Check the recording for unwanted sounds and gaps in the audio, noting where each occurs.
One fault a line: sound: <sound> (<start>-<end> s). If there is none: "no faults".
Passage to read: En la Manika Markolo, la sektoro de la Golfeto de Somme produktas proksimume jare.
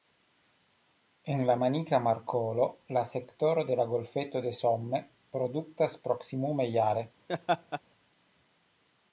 sound: laugh (7.3-7.8 s)